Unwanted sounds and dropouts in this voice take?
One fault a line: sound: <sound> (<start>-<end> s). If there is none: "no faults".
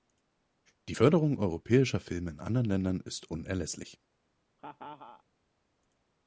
sound: laugh (4.6-5.2 s)